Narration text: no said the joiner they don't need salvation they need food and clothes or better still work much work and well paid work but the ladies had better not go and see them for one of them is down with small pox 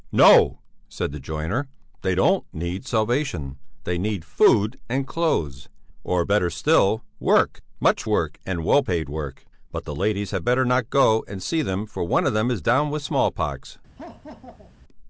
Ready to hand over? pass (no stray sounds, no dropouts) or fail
fail